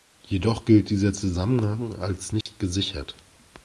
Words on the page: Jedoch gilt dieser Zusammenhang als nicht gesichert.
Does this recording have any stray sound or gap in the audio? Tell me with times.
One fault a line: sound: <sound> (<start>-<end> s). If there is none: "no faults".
sound: dropout (2.4-2.5 s)